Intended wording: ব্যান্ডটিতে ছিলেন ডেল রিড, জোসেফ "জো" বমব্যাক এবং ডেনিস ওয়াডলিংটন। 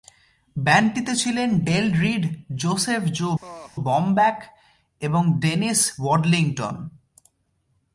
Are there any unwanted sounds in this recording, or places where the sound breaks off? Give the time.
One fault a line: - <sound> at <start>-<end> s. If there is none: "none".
- laugh at 3.4-3.7 s